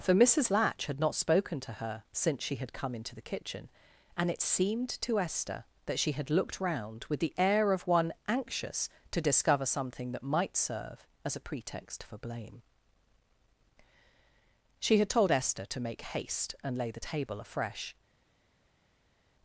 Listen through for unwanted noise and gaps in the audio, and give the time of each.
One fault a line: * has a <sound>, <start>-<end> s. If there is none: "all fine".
all fine